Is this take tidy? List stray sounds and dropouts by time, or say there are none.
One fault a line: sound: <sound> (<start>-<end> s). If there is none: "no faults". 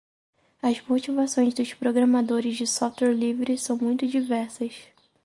no faults